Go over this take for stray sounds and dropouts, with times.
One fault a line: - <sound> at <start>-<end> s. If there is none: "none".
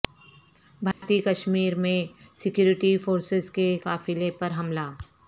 - dropout at 0.9-1.0 s